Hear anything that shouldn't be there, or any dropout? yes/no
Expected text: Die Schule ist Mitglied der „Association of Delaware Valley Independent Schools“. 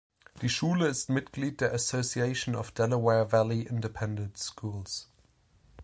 no